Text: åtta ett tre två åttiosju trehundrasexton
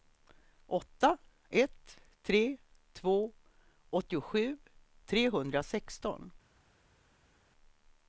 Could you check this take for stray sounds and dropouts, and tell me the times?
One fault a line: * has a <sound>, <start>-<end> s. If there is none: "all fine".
all fine